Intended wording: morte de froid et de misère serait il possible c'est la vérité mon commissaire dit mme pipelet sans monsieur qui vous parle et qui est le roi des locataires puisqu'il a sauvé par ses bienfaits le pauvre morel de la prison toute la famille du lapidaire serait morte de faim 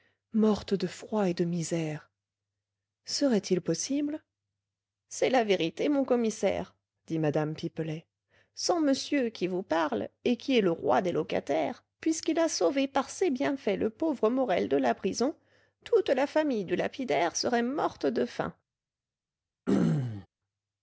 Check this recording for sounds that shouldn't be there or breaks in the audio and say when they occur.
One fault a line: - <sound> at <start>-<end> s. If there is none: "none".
- throat clearing at 19.7-20.3 s